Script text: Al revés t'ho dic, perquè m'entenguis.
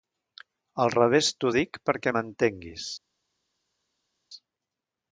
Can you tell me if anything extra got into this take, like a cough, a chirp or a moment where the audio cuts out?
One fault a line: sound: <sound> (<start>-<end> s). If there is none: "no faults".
no faults